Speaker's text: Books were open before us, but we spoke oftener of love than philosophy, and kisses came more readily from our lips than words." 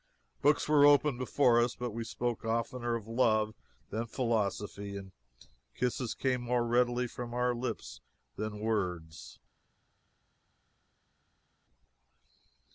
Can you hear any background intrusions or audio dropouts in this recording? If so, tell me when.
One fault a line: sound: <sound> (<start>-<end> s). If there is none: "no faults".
no faults